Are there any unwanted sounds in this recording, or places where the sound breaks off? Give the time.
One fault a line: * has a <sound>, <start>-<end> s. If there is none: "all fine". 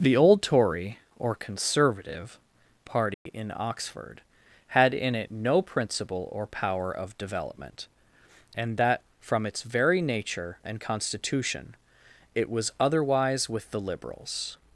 * has a dropout, 3.1-3.3 s